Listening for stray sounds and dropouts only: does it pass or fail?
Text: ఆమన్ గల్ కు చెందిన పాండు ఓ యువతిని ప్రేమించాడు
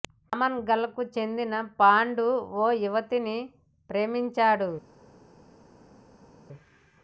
pass